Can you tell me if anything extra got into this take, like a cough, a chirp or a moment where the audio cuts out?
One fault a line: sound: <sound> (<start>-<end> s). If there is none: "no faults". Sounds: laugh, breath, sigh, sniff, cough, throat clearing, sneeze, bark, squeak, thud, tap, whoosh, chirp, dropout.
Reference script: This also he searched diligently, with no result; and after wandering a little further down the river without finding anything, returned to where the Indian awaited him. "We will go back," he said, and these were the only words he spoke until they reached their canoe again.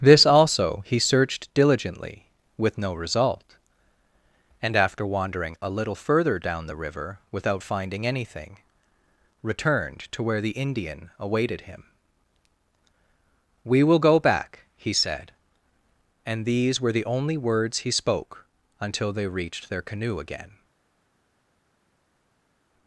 no faults